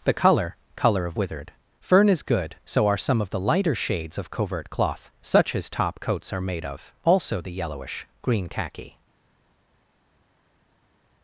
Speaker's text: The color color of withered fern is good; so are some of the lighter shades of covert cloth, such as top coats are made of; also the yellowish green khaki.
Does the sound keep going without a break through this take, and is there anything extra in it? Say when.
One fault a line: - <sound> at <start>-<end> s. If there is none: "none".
none